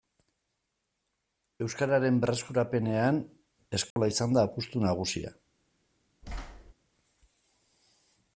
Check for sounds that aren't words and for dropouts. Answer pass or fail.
fail